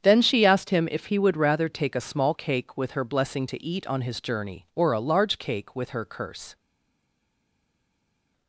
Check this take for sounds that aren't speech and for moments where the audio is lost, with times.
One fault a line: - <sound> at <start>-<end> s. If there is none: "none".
none